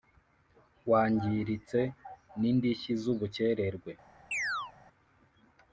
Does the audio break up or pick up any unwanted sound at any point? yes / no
yes